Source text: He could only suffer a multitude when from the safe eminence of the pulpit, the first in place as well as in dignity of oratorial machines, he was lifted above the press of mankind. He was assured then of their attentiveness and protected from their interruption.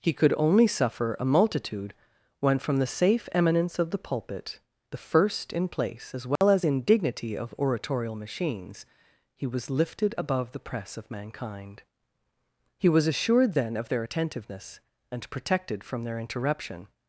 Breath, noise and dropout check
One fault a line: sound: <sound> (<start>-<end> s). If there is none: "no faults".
sound: dropout (6.4-6.4 s)